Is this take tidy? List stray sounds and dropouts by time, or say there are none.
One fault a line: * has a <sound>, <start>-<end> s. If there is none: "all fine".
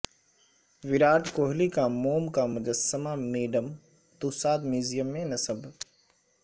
all fine